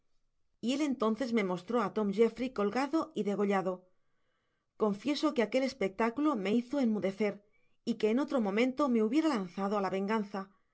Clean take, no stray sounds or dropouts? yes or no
yes